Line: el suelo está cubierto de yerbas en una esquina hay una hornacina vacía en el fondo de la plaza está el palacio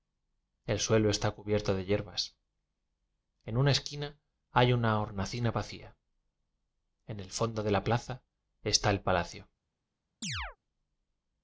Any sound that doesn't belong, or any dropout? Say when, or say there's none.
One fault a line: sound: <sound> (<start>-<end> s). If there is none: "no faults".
sound: chirp (10.2-10.6 s)